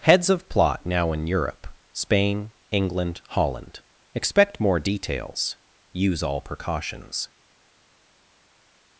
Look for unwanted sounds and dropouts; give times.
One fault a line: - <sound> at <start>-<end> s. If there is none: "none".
none